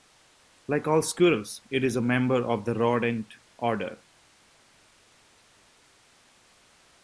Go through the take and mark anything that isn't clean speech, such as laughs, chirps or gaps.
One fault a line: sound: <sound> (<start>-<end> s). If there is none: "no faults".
no faults